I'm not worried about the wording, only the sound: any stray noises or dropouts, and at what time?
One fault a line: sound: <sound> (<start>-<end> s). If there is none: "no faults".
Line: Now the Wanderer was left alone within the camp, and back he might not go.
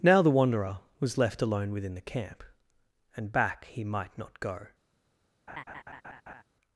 sound: laugh (5.5-6.4 s)